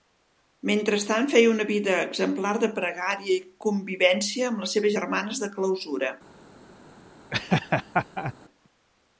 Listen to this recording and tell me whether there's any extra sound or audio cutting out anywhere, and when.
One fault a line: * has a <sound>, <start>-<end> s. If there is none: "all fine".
* has a laugh, 7.3-8.3 s